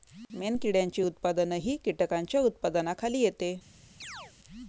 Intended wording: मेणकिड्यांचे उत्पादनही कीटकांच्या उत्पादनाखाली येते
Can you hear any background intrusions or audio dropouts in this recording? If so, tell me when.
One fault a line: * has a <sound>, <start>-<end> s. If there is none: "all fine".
* has a chirp, 4.0-4.3 s